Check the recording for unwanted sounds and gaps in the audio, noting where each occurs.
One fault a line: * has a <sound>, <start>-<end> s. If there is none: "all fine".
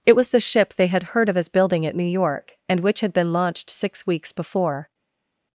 all fine